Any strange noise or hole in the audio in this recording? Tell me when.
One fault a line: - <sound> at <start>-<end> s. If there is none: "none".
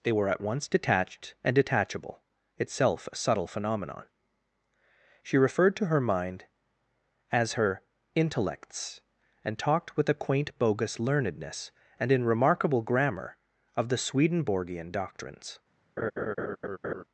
- laugh at 16.0-17.0 s